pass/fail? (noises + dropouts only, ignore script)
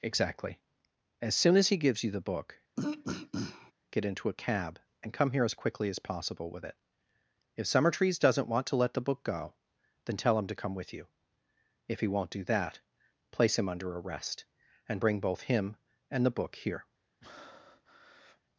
fail